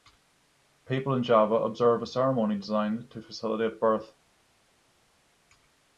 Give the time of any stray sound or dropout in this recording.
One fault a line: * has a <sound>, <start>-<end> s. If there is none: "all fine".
all fine